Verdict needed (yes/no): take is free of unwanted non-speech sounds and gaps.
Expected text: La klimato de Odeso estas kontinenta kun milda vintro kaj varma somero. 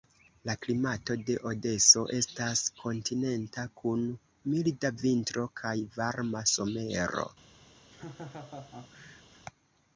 no